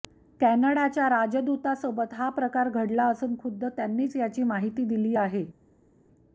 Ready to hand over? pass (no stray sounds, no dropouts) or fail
pass